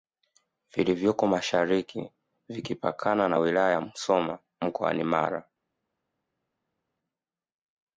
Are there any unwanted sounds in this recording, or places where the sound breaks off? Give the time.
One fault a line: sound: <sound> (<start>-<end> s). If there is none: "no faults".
no faults